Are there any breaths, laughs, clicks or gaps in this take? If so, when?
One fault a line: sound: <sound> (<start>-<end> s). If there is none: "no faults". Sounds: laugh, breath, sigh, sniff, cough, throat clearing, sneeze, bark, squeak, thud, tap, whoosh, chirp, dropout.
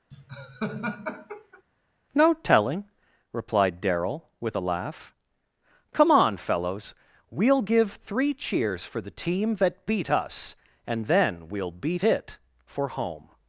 sound: laugh (0.1-1.6 s)